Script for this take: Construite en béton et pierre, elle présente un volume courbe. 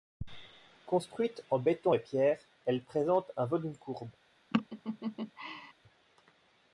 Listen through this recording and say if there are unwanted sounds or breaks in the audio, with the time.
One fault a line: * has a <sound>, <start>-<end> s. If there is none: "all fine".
* has a laugh, 4.5-5.7 s